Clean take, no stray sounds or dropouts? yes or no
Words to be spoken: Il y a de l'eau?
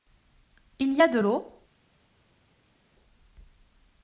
yes